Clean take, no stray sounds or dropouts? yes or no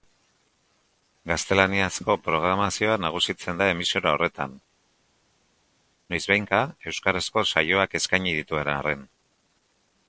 yes